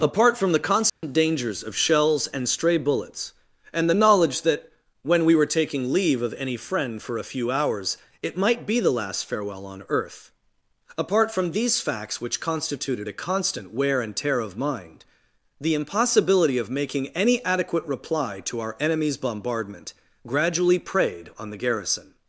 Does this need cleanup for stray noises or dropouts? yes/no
yes